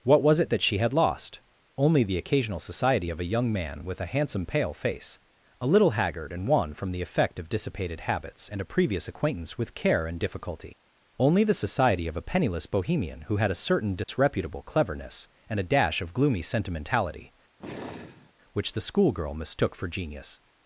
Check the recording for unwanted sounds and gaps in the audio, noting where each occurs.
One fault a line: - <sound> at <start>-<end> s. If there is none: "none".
- dropout at 14.0-14.1 s
- sigh at 17.6-18.3 s